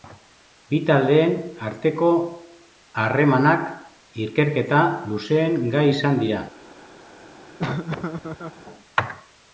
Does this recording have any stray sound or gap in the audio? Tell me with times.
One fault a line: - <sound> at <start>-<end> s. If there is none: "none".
- laugh at 7.6-8.6 s